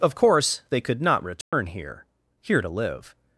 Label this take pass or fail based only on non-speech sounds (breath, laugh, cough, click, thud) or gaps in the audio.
fail